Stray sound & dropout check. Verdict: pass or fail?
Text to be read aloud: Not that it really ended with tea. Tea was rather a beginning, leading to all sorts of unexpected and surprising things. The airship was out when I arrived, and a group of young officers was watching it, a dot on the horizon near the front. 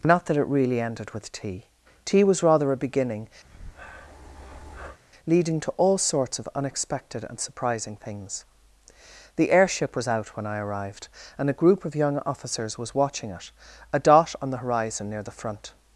fail